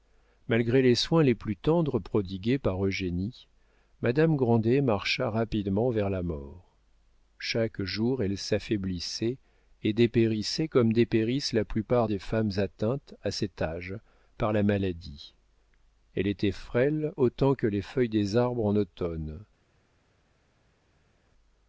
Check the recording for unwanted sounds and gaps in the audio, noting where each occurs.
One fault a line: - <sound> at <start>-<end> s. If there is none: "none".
none